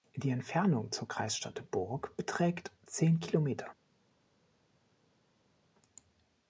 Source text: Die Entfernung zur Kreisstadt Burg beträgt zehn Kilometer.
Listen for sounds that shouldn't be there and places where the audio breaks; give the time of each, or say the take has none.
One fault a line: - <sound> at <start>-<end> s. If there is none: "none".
none